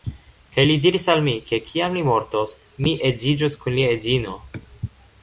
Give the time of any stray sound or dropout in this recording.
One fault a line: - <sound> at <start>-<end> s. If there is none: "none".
none